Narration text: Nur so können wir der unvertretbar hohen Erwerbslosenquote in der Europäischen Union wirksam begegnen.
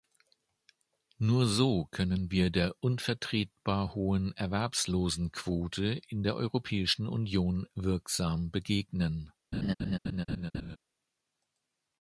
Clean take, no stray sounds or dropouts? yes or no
no